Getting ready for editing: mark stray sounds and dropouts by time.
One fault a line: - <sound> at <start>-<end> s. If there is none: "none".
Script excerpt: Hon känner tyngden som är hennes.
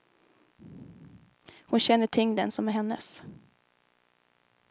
none